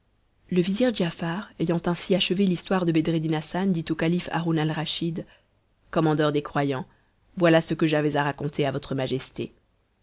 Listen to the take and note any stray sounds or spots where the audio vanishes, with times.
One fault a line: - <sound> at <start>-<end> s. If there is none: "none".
none